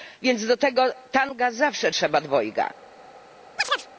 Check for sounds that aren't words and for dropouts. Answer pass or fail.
fail